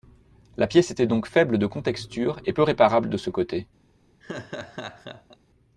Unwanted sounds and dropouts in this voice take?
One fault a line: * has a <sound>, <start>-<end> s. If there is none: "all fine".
* has a laugh, 4.2-5.4 s